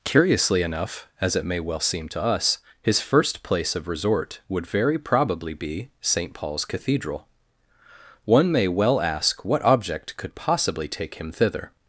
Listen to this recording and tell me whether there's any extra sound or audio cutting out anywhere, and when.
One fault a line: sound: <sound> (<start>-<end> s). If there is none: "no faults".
no faults